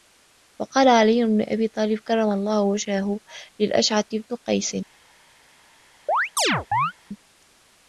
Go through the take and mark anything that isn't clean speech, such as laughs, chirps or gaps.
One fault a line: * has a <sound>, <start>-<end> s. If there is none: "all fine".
* has a chirp, 6.1-6.9 s